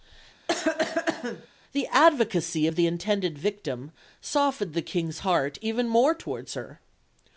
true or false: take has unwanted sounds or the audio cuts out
true